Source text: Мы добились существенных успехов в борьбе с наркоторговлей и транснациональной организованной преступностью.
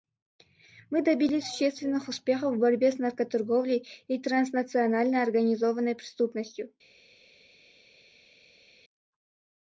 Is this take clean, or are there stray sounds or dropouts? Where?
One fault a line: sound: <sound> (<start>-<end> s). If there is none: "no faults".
no faults